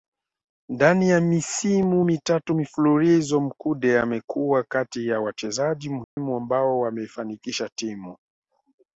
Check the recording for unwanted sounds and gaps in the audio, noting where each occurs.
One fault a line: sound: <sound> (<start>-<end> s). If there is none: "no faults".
sound: dropout (6.0-6.2 s)